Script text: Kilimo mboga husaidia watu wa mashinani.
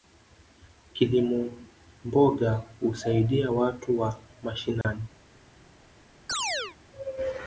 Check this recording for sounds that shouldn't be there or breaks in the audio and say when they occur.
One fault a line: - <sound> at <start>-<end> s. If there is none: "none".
- dropout at 4.8-4.8 s
- chirp at 6.3-6.8 s